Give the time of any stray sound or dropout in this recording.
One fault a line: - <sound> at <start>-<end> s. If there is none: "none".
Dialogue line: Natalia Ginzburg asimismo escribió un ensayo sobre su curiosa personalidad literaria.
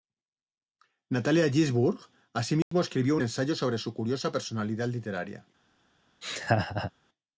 - dropout at 2.6-2.7 s
- laugh at 6.2-6.9 s